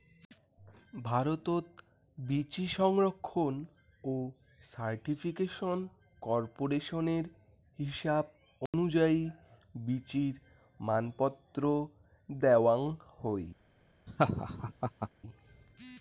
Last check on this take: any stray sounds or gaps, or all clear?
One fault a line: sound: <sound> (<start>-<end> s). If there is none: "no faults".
sound: dropout (8.7-8.7 s)
sound: laugh (14.1-15.1 s)